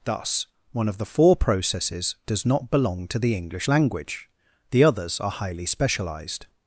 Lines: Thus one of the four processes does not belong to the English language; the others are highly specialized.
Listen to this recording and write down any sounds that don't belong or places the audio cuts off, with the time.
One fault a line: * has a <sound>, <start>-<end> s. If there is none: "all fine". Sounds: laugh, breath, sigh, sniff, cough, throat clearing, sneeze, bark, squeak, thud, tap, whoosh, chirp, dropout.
all fine